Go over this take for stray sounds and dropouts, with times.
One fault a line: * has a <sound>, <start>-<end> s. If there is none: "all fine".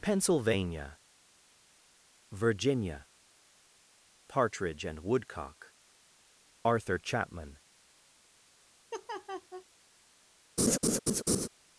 * has a laugh, 8.9-9.7 s
* has a laugh, 10.6-11.5 s